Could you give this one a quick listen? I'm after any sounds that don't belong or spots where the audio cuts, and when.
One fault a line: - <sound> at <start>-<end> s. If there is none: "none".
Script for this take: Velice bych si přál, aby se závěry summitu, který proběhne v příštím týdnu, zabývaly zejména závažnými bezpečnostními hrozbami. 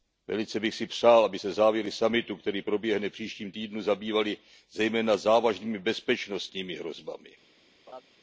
- laugh at 7.9-8.0 s